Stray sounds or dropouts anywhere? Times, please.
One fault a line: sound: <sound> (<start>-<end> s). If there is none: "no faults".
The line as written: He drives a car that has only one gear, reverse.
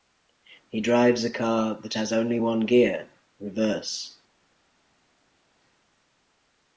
no faults